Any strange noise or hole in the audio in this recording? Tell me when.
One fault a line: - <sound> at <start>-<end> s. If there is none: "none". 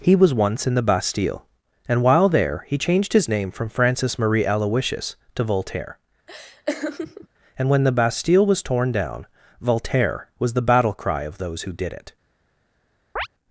- laugh at 6.3-7.3 s
- chirp at 13.2-13.3 s